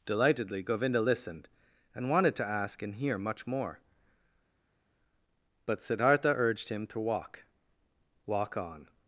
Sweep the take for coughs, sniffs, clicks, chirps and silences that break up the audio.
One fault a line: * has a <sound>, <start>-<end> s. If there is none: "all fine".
all fine